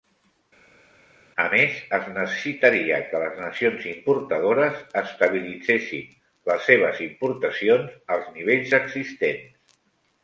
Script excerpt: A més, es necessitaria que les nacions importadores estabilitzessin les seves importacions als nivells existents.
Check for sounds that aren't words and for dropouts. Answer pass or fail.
pass